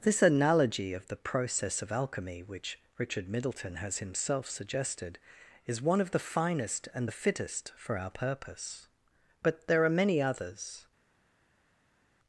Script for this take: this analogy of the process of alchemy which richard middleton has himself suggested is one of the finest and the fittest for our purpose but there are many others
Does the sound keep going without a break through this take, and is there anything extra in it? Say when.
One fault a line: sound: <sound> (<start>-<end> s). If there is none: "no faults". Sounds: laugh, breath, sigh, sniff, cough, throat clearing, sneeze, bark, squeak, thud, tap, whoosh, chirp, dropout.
no faults